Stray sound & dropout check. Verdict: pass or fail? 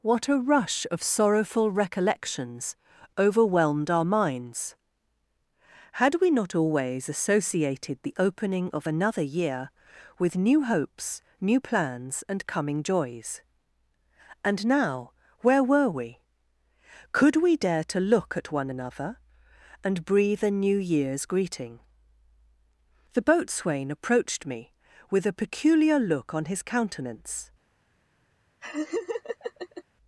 fail